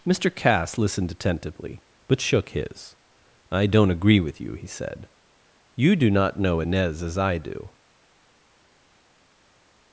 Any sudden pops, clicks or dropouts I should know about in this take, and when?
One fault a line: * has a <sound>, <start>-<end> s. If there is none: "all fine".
all fine